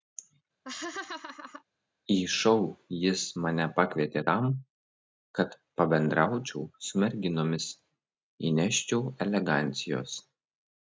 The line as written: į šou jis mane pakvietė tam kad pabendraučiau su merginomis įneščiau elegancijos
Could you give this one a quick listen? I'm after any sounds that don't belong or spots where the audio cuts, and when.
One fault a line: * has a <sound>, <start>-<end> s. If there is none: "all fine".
* has a laugh, 0.6-1.6 s